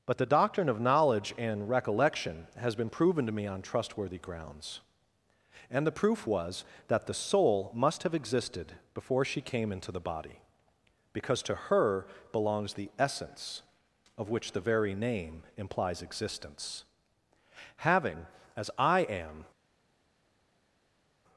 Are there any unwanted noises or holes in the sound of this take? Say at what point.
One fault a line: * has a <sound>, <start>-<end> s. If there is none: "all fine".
all fine